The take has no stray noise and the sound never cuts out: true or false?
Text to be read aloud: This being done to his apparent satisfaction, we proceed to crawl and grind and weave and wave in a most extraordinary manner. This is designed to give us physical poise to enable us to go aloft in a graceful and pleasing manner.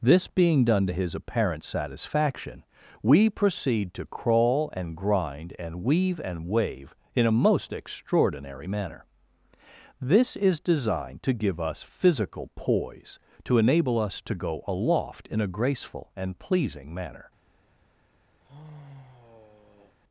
false